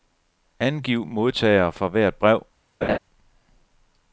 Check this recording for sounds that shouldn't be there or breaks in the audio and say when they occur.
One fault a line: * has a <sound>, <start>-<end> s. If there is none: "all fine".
* has a laugh, 2.8-3.0 s